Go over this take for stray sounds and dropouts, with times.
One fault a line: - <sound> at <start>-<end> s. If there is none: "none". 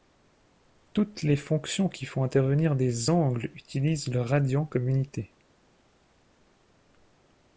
none